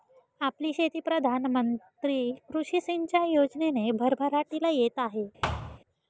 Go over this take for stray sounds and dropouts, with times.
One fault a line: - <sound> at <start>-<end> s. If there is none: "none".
- thud at 5.4-5.8 s